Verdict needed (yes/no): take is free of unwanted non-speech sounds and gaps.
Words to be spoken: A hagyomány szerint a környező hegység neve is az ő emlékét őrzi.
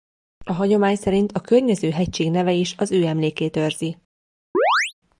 no